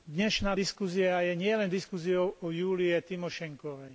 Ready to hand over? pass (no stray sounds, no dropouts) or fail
pass